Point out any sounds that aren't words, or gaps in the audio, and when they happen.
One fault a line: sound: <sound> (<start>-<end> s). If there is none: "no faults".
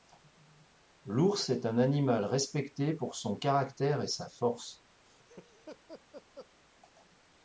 sound: laugh (5.0-6.5 s)